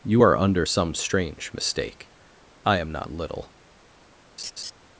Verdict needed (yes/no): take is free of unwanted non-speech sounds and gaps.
no